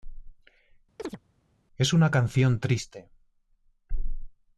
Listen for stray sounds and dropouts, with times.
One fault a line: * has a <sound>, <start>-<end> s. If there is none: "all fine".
* has a chirp, 1.0-1.2 s